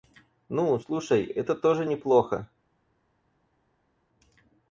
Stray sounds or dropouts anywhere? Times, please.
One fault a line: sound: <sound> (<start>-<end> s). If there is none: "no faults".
no faults